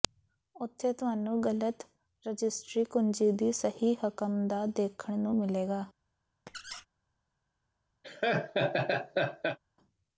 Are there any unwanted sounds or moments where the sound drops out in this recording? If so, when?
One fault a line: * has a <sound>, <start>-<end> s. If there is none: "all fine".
* has a squeak, 6.5-6.9 s
* has a laugh, 8.0-9.6 s